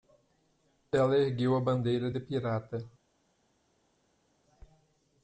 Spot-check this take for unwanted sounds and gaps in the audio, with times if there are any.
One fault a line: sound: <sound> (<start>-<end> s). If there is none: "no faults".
no faults